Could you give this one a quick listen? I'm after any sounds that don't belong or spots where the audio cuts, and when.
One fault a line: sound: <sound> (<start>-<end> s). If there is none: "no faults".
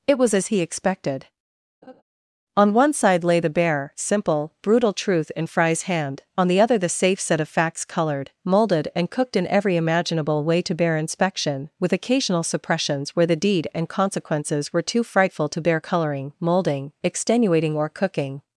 sound: laugh (1.8-2.0 s)